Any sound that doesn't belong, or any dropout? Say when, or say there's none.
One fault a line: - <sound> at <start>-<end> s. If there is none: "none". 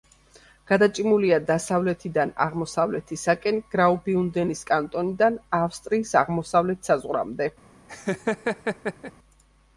- laugh at 7.9-9.1 s